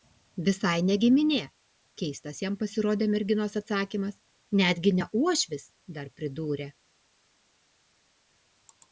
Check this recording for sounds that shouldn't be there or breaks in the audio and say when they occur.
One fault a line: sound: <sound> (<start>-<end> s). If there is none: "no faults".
no faults